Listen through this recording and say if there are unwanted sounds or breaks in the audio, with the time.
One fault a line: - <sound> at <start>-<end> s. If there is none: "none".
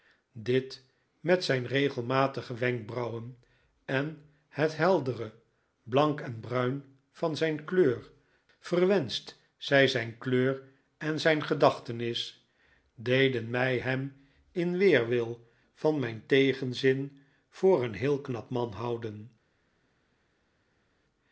none